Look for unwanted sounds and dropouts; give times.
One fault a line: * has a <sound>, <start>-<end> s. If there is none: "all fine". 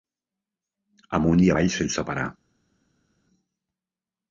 all fine